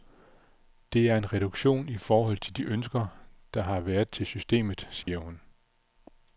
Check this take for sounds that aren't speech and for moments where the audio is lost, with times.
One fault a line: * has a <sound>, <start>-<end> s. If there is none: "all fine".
* has a dropout, 5.0-5.1 s